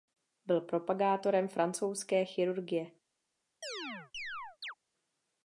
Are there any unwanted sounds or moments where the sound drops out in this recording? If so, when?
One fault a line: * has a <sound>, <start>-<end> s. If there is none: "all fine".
* has a chirp, 3.6-4.7 s